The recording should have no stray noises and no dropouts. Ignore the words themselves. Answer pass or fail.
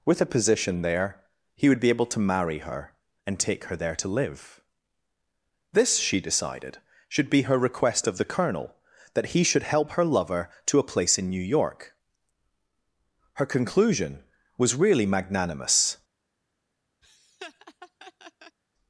fail